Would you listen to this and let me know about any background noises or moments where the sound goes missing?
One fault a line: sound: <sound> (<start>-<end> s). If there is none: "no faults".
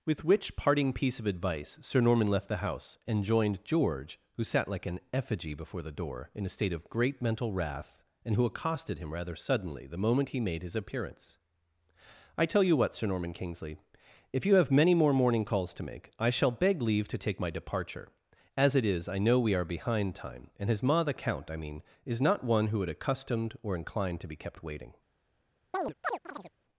sound: chirp (25.7-26.5 s)